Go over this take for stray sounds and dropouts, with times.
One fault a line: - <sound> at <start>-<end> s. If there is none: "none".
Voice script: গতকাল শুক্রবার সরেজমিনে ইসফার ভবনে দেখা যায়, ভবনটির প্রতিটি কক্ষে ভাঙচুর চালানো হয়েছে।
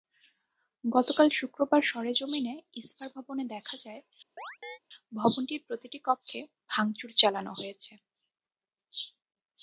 - chirp at 4.4-4.8 s